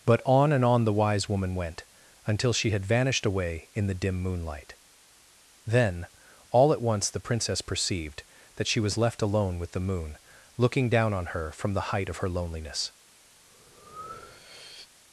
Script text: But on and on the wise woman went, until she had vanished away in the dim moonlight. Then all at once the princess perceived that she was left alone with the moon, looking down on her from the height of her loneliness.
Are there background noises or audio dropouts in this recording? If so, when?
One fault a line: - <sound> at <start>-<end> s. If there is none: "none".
- breath at 13.5-14.9 s